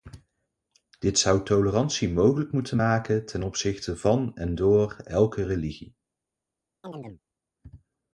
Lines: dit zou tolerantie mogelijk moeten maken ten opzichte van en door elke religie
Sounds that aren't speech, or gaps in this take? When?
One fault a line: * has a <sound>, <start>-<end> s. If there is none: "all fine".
* has a chirp, 6.8-7.2 s